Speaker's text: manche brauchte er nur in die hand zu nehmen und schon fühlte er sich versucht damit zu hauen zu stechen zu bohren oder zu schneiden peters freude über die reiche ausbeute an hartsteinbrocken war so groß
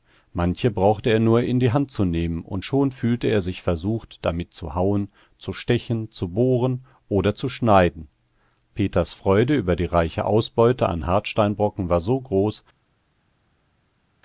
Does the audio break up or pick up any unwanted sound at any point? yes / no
no